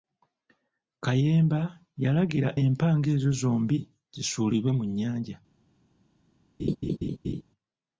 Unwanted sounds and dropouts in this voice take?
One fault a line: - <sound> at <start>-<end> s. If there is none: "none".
- laugh at 6.6-7.4 s